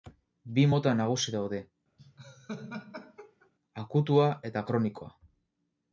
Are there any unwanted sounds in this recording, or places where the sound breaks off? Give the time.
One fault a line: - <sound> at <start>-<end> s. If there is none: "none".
- laugh at 2.0-3.5 s